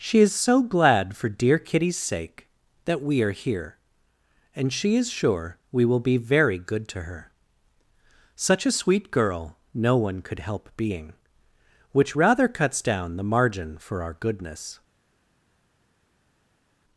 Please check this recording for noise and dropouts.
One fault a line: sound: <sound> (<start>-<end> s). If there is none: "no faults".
no faults